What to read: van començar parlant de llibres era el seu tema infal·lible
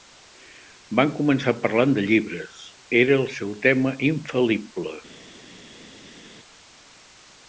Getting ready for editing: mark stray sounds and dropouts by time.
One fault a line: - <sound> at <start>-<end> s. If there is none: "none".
none